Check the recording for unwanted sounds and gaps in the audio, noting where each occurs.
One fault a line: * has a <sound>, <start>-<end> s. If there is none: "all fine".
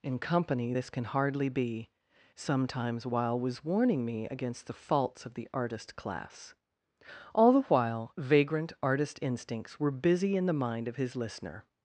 all fine